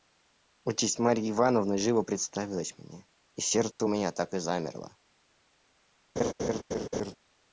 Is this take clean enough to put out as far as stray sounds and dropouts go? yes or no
no